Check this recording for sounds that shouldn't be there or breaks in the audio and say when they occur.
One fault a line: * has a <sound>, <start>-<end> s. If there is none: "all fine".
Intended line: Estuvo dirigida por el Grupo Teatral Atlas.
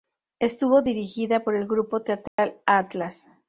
* has a dropout, 2.3-2.4 s